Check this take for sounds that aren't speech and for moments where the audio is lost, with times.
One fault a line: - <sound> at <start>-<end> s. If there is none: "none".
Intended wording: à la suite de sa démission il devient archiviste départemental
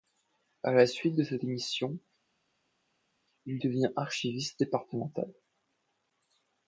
none